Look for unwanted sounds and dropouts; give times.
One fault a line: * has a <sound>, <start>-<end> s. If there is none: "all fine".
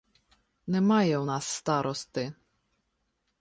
all fine